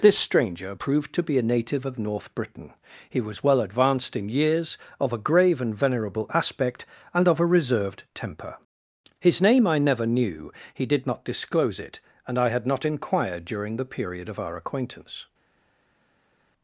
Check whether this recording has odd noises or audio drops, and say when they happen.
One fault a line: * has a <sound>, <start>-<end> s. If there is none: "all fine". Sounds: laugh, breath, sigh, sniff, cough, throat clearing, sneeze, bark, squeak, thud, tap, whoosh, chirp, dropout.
all fine